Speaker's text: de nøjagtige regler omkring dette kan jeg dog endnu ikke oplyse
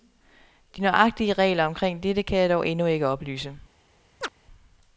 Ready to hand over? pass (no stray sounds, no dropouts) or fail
fail